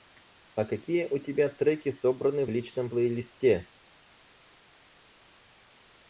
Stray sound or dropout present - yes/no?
no